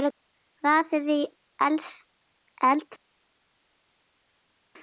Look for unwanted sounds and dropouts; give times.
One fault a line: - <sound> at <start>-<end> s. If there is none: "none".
none